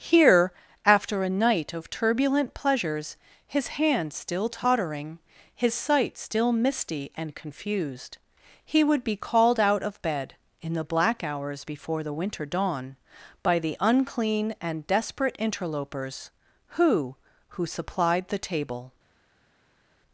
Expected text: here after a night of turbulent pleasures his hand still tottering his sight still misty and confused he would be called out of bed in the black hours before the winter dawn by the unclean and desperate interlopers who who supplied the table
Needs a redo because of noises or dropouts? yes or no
no